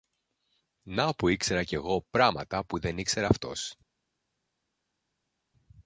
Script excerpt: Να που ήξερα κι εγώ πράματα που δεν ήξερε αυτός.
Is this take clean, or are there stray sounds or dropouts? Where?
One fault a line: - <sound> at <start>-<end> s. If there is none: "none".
none